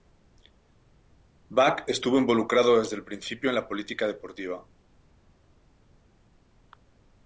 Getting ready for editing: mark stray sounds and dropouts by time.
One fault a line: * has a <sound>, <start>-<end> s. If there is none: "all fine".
all fine